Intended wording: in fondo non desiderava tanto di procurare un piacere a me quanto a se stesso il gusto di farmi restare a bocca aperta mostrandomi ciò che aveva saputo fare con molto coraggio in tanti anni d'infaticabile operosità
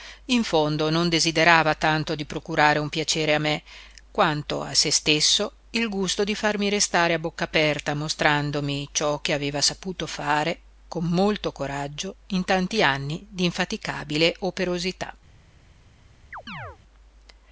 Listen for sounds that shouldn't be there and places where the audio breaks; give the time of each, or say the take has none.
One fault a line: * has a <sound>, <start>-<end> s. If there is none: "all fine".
* has a chirp, 16.3-16.8 s